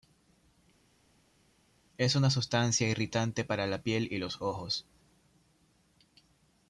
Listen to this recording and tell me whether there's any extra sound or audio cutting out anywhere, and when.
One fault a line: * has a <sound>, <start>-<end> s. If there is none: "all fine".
all fine